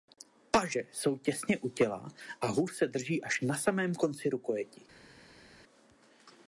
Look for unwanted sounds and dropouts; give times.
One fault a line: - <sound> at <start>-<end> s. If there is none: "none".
none